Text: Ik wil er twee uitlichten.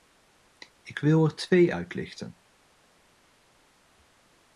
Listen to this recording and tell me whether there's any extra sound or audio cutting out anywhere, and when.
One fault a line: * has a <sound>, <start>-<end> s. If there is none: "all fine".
all fine